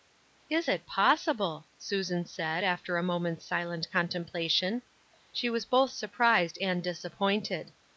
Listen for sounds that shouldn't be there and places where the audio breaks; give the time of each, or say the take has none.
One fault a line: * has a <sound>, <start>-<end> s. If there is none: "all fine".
all fine